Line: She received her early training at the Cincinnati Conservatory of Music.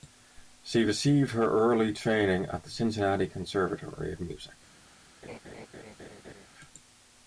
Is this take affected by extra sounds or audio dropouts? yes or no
yes